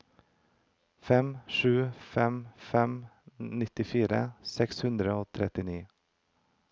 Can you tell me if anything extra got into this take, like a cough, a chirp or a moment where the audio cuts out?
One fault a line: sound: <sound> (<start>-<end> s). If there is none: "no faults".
no faults